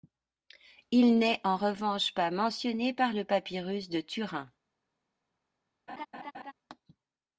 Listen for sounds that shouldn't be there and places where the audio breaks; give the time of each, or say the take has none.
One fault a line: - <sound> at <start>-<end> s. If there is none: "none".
- laugh at 5.9-6.5 s